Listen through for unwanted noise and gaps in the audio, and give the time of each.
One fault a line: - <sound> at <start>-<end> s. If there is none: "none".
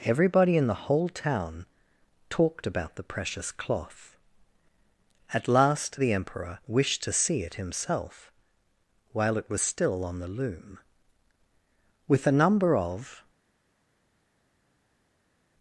none